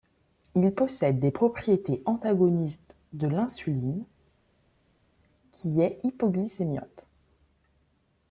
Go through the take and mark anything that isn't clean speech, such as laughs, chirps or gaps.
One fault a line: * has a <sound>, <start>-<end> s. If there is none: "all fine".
all fine